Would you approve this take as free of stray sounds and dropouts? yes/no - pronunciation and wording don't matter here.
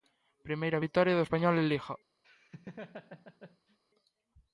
no